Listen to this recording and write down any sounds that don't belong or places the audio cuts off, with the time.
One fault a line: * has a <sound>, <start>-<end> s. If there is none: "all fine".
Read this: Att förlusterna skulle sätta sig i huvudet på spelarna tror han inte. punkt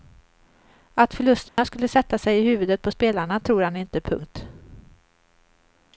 * has a dropout, 1.5-1.6 s